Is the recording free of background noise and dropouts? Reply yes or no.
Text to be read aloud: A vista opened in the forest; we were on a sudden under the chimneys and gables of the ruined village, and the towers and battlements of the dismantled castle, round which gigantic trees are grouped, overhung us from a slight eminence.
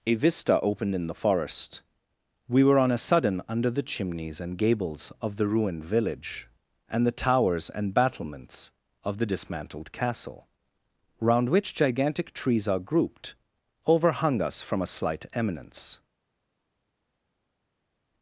yes